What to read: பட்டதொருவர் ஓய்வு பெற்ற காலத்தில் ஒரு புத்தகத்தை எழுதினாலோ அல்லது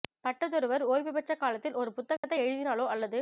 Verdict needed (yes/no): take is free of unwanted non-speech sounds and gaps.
no